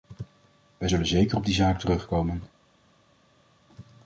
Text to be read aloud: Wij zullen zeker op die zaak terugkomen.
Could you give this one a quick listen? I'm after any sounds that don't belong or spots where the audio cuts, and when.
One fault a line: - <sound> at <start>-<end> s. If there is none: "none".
none